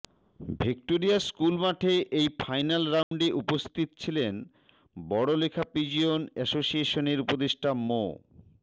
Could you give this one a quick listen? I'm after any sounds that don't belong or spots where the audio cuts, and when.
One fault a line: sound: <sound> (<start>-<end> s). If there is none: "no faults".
sound: dropout (3.0-3.1 s)